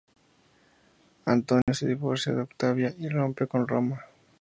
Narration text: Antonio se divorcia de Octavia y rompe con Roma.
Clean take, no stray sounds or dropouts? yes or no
no